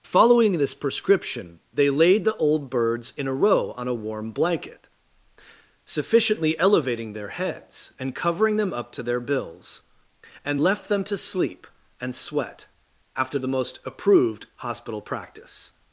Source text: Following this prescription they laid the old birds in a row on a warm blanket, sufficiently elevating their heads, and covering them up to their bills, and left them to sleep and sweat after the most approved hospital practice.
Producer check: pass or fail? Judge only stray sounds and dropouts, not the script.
pass